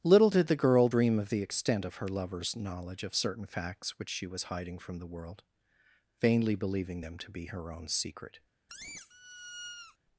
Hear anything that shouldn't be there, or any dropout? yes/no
yes